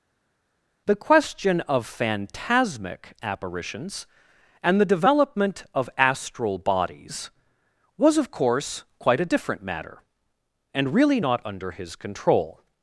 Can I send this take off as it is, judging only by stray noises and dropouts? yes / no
yes